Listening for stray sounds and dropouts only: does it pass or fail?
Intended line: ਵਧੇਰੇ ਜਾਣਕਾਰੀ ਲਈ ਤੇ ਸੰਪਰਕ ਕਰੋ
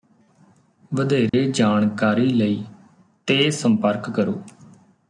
fail